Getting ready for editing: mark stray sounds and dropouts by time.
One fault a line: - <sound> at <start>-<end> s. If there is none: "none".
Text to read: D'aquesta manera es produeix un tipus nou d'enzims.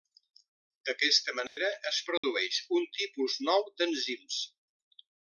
- dropout at 1.5-1.6 s
- dropout at 2.2-2.2 s